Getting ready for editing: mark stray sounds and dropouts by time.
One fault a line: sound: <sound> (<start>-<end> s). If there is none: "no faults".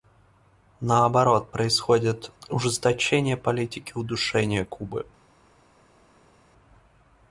no faults